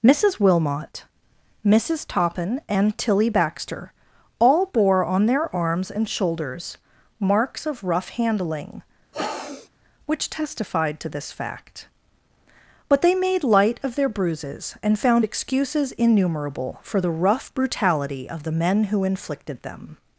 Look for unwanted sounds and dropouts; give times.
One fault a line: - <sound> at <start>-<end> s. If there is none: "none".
- sniff at 9.1-9.7 s